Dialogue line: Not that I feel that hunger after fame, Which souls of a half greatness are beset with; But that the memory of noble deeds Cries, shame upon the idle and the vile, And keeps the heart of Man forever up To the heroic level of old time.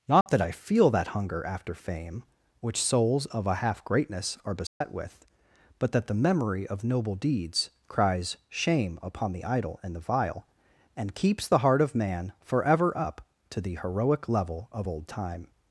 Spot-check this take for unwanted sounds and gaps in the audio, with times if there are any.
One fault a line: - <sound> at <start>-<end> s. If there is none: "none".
- dropout at 0.2-0.3 s
- dropout at 4.7-4.8 s